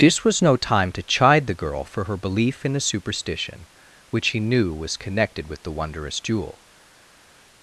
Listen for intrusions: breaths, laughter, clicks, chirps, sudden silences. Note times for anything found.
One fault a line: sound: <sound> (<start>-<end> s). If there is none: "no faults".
no faults